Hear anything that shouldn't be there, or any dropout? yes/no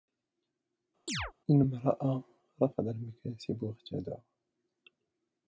yes